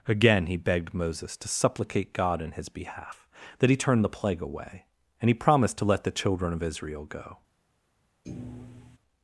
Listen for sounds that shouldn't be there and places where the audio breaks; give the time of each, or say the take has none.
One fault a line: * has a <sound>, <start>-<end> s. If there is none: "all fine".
* has a thud, 8.2-9.0 s